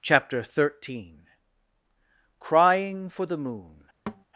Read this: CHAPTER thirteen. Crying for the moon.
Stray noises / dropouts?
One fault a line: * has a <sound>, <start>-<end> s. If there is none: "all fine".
* has a thud, 4.1-4.2 s